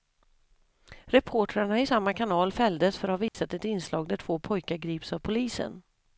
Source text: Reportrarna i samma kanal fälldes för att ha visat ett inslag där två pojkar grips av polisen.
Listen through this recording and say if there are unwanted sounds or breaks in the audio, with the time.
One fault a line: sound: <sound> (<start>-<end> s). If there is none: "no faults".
sound: dropout (3.3-3.3 s)